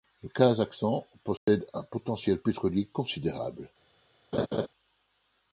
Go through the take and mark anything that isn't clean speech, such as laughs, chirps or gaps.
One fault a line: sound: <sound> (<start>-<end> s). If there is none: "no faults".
sound: dropout (1.4-1.5 s)
sound: laugh (4.3-4.7 s)